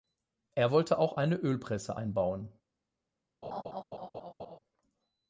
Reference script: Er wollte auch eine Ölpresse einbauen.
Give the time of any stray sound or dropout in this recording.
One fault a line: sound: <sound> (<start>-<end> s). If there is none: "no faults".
sound: laugh (3.4-4.6 s)